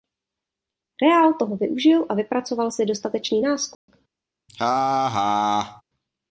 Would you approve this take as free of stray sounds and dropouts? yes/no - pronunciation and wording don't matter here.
no